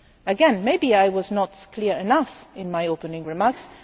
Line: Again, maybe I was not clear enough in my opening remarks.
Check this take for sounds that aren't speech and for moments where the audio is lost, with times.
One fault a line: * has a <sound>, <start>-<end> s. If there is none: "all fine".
all fine